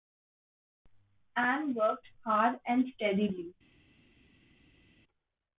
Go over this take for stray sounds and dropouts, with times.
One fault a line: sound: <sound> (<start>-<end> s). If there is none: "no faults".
no faults